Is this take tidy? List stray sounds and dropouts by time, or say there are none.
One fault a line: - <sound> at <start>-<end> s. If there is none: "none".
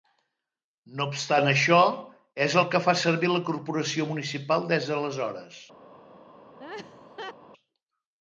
- laugh at 6.6-7.3 s